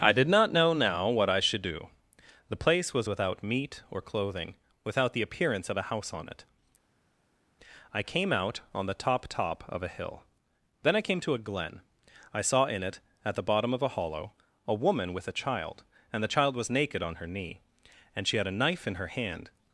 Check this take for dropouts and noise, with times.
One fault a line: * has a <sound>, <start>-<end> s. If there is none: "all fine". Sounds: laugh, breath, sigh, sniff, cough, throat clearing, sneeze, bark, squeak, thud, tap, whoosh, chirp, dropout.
all fine